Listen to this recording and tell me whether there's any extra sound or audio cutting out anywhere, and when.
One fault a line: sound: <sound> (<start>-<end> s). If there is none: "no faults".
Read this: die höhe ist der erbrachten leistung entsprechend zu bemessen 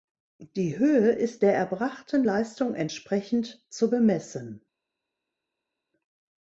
no faults